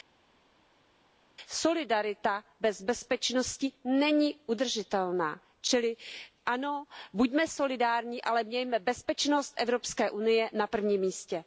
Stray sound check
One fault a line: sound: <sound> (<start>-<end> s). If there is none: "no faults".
no faults